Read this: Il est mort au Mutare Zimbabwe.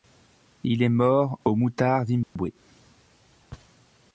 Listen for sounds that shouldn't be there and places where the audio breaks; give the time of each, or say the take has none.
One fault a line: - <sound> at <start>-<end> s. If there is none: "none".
- dropout at 2.2-2.4 s